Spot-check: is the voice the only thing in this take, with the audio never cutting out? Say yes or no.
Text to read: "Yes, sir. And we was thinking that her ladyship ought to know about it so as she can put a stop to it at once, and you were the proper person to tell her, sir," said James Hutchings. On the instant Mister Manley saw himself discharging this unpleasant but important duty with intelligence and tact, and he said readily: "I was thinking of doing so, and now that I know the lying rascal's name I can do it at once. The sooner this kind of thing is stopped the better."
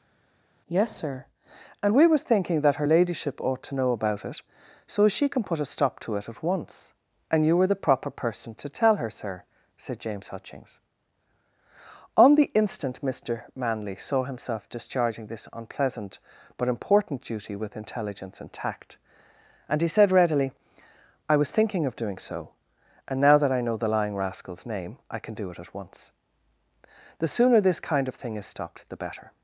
yes